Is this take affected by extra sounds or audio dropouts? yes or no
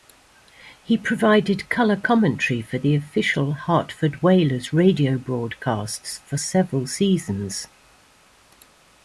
no